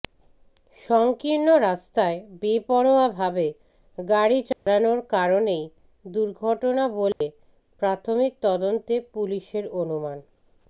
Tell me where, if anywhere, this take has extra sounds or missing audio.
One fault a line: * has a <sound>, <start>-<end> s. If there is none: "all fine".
* has a dropout, 4.5-4.7 s
* has a dropout, 7.1-7.2 s